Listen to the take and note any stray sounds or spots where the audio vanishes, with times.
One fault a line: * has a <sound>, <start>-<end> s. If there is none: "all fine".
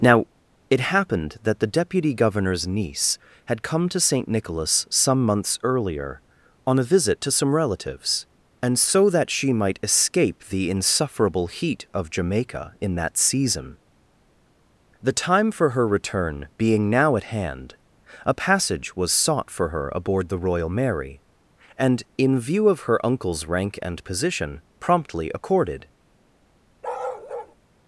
* has a bark, 26.8-27.6 s